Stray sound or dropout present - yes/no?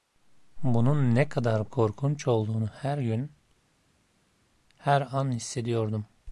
no